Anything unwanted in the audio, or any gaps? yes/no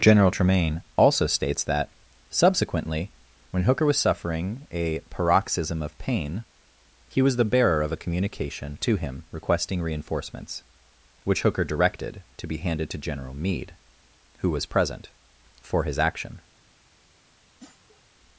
yes